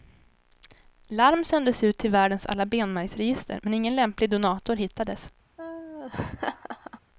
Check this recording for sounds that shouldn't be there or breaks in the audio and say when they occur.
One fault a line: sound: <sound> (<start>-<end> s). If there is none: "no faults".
sound: laugh (5.6-7.0 s)